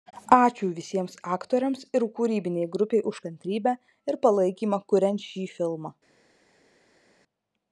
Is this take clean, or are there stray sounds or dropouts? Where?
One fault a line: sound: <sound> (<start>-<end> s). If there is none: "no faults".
no faults